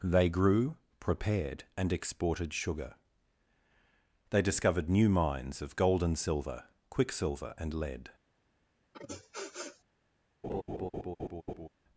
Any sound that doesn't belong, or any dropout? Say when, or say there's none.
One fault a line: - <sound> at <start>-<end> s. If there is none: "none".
- sniff at 8.9-9.8 s
- laugh at 10.4-11.7 s